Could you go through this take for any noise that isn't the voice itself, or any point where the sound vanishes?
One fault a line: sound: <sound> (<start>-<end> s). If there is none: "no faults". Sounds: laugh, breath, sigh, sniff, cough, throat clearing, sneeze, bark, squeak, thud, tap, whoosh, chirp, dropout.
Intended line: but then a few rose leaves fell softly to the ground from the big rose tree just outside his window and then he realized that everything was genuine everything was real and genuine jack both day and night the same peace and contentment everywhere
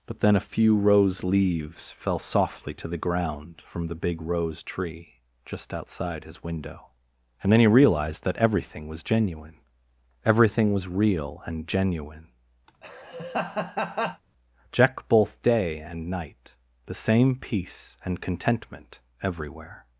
sound: laugh (12.7-14.2 s)